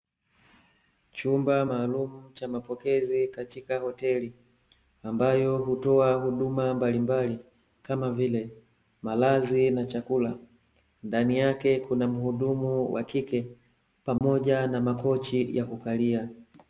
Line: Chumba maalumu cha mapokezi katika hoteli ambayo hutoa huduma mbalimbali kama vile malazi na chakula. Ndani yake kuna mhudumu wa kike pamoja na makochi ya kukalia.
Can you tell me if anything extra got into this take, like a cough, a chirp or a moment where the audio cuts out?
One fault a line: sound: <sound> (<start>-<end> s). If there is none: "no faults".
sound: dropout (14.2-14.2 s)